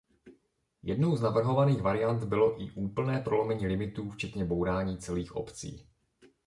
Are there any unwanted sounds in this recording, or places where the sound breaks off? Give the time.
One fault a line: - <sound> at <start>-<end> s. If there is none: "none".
none